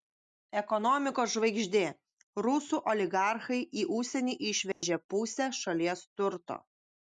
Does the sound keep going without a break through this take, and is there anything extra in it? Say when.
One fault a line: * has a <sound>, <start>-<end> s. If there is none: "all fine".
* has a dropout, 4.7-4.8 s